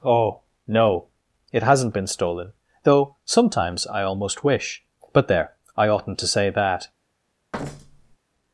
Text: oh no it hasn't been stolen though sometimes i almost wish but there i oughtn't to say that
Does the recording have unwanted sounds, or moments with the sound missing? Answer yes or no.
yes